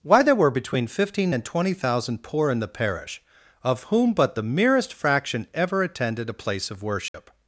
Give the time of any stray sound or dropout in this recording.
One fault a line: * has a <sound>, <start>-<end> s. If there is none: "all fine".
* has a dropout, 7.1-7.1 s